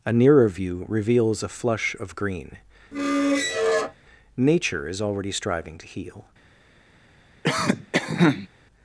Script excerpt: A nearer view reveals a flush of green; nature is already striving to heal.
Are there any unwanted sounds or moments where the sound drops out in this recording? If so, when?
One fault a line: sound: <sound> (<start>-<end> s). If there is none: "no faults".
sound: squeak (2.9-4.0 s)
sound: cough (7.4-8.5 s)